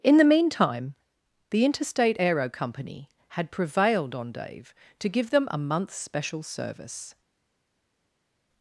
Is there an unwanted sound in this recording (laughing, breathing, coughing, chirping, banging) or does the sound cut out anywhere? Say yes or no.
no